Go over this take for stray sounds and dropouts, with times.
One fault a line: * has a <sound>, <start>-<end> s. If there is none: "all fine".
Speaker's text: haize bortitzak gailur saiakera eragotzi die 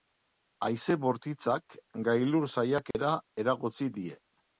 * has a dropout, 2.9-2.9 s